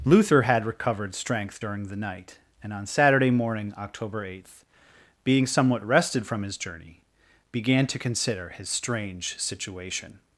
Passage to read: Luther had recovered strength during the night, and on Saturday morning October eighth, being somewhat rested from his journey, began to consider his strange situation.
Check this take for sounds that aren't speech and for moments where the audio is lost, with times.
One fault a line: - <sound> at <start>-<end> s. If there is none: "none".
none